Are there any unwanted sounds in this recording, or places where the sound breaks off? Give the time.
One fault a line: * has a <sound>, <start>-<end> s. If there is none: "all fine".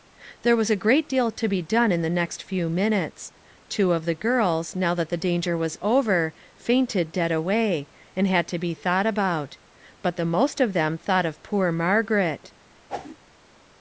* has a whoosh, 12.9-13.2 s